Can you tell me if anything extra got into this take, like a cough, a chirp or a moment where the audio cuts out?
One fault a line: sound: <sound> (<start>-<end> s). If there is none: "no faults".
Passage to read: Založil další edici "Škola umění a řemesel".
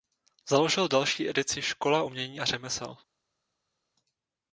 no faults